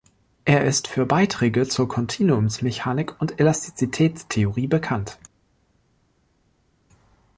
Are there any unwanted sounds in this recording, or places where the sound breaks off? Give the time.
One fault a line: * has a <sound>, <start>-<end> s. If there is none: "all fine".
all fine